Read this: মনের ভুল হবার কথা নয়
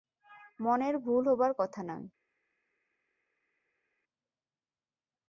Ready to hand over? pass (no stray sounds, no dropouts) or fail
pass